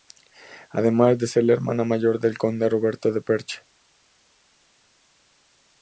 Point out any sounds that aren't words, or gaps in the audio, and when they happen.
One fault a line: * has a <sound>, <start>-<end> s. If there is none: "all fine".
all fine